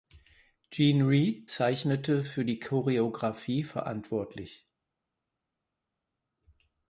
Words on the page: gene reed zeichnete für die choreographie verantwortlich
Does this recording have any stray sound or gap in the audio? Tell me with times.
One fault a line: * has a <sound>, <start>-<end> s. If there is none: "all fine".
all fine